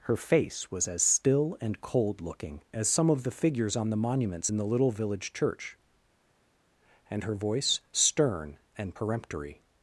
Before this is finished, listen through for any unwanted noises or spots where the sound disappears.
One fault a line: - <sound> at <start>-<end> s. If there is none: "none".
none